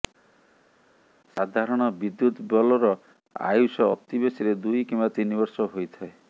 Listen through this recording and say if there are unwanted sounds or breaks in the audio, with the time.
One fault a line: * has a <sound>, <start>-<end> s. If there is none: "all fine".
all fine